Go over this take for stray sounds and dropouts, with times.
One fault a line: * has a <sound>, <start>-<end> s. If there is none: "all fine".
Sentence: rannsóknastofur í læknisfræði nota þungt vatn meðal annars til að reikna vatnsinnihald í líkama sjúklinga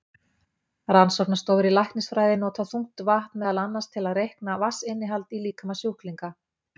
all fine